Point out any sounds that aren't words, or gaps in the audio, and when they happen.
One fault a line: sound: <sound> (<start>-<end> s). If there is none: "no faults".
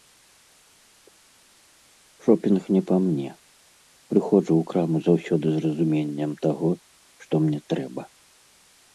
no faults